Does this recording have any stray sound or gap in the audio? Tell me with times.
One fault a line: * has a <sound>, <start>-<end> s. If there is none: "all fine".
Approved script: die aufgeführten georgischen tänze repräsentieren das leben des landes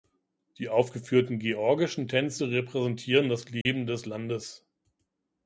* has a dropout, 3.6-3.7 s